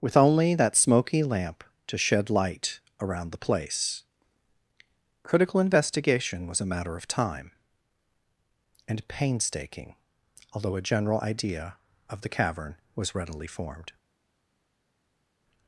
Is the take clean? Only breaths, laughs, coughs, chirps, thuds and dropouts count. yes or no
yes